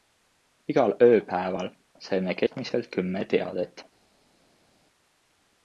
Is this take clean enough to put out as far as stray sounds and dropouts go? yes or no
yes